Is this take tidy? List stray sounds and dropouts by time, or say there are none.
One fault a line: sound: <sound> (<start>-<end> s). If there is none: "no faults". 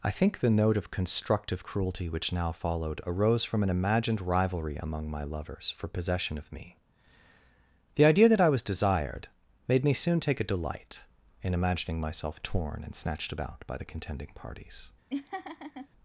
sound: laugh (15.1-15.9 s)